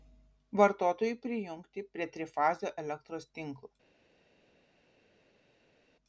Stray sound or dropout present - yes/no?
no